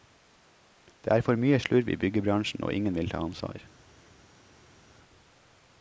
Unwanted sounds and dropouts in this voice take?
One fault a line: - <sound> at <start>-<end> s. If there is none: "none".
none